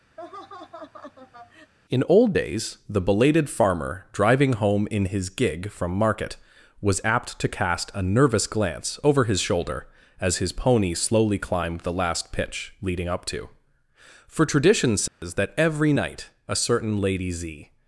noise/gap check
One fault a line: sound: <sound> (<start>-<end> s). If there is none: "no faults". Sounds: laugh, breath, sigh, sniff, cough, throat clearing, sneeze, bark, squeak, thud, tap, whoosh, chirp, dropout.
sound: laugh (0.2-1.7 s)
sound: dropout (15.1-15.2 s)